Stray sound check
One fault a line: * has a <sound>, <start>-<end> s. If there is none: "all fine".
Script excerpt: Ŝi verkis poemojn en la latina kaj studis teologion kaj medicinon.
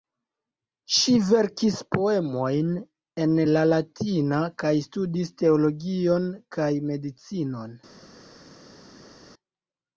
all fine